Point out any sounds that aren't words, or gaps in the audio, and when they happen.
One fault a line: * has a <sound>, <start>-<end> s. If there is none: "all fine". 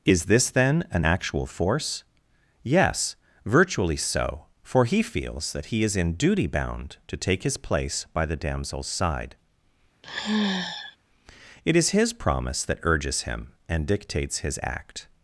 * has a sigh, 10.0-11.0 s